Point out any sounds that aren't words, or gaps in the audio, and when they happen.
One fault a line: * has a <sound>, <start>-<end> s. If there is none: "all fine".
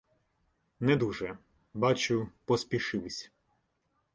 all fine